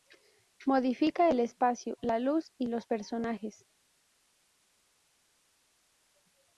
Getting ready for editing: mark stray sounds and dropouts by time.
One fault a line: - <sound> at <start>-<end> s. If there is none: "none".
none